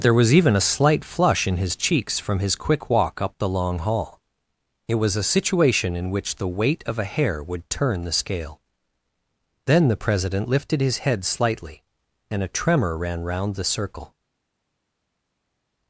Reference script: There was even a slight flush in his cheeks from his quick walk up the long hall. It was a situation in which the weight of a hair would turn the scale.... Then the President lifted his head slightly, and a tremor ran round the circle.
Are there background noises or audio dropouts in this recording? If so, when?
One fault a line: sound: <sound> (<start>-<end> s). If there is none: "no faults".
no faults